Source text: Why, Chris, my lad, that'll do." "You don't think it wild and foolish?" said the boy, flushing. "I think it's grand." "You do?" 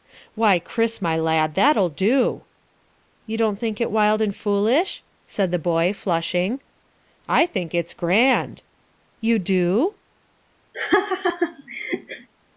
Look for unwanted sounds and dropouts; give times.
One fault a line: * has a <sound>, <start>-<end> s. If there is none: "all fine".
* has a laugh, 10.7-12.3 s